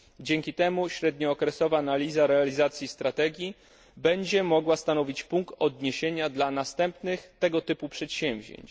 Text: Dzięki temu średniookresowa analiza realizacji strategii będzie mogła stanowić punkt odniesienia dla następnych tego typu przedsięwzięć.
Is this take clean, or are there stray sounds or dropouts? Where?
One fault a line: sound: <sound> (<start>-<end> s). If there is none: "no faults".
no faults